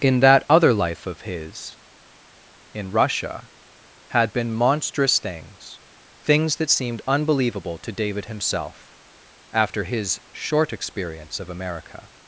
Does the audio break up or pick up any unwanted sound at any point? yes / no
no